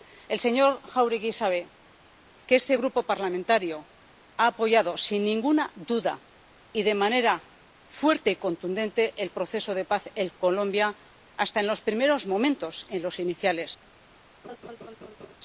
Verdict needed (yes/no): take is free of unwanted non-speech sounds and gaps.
no